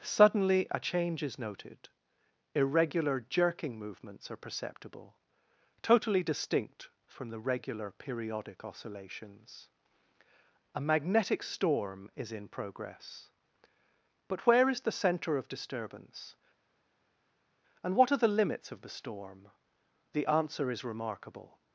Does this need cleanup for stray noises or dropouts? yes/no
no